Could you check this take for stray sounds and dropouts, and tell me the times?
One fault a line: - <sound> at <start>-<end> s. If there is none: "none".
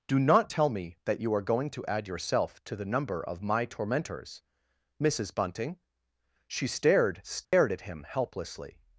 - dropout at 7.4-7.5 s